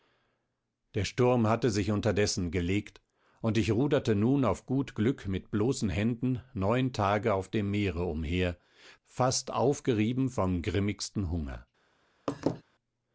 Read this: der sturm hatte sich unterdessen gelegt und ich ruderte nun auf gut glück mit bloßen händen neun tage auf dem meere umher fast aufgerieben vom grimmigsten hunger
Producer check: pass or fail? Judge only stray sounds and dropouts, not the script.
fail